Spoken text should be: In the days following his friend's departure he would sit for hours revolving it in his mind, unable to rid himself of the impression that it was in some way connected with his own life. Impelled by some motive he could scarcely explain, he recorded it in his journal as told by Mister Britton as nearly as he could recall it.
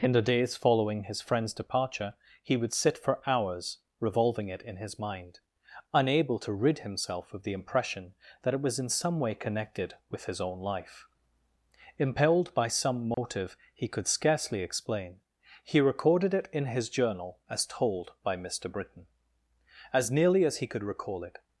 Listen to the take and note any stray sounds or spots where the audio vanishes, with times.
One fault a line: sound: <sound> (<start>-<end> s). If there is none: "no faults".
sound: dropout (13.1-13.2 s)